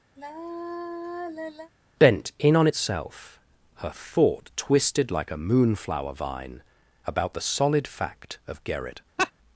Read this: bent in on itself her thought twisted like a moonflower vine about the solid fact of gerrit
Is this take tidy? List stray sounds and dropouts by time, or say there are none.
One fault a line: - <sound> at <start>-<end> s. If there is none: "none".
- sigh at 0.2-1.7 s
- laugh at 9.2-9.3 s